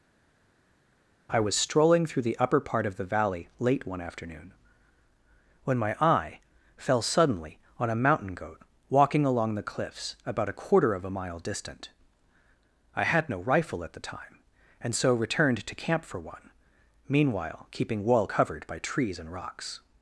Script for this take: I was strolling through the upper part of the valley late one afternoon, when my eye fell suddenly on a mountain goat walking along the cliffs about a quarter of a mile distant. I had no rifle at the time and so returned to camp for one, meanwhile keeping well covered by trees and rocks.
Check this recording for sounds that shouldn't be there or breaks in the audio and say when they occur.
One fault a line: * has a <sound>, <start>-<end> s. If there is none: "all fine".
all fine